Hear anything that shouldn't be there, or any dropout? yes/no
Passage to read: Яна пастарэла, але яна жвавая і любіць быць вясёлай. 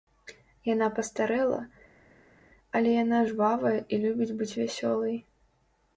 no